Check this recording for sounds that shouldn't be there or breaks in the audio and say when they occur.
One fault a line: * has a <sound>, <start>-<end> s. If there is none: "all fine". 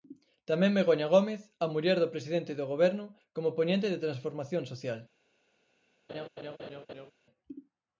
* has a laugh, 6.1-7.1 s